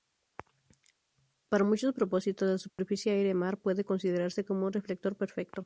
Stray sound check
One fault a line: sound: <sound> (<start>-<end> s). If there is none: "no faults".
sound: dropout (2.7-2.8 s)